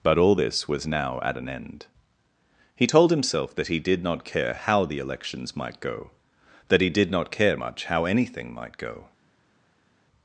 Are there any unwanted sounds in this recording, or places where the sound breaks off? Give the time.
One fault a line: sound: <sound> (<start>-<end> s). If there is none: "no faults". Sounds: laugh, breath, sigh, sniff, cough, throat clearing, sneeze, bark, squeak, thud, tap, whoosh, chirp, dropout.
no faults